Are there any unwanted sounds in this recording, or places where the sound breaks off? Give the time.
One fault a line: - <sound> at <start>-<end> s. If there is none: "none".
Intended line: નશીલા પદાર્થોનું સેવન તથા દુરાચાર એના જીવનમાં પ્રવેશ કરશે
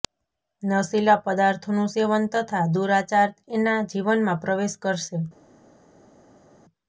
none